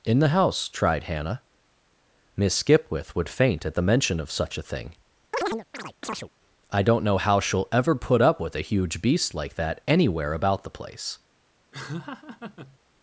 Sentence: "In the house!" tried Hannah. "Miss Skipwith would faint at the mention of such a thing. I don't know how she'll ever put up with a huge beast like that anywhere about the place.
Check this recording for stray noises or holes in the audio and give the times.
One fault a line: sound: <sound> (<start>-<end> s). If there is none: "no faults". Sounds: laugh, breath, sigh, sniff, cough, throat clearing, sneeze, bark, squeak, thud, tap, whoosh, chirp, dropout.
sound: chirp (5.3-6.3 s)
sound: laugh (11.7-12.8 s)